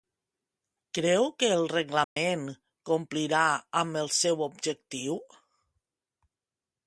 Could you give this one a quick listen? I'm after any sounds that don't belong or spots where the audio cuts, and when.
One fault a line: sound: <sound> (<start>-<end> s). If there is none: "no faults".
sound: dropout (2.0-2.2 s)